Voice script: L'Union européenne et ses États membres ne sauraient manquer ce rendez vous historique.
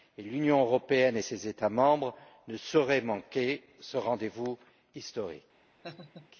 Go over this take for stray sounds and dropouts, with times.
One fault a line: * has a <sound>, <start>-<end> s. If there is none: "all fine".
* has a laugh, 5.8-6.3 s